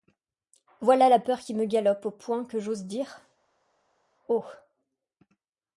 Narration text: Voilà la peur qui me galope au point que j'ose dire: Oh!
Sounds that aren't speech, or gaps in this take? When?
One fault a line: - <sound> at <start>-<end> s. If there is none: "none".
none